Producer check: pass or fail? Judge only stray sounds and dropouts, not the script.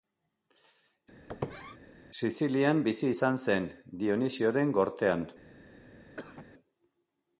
fail